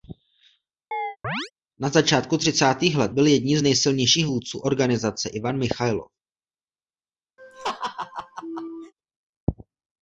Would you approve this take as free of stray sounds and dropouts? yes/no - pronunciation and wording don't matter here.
no